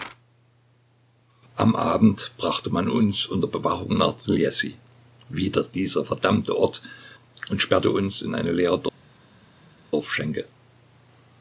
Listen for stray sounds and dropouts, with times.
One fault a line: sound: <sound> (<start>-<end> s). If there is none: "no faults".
no faults